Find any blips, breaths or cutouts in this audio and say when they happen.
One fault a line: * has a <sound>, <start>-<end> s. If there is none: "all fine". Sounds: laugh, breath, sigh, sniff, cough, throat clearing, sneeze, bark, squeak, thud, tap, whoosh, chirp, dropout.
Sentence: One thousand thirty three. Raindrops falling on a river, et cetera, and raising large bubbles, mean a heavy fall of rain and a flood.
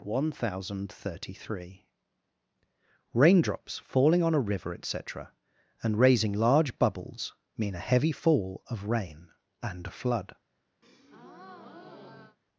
* has a breath, 10.8-12.4 s